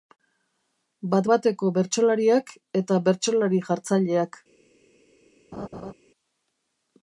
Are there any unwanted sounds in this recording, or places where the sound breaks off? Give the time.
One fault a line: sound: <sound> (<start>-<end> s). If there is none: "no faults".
sound: laugh (5.5-5.9 s)